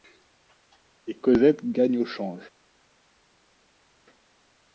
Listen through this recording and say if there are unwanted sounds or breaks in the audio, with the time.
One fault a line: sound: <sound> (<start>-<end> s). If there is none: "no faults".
no faults